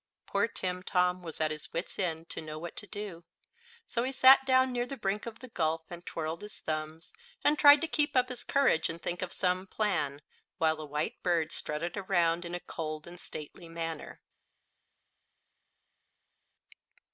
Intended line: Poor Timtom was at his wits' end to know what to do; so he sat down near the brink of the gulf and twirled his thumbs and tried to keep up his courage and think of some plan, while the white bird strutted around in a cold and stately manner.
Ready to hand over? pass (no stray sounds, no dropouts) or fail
pass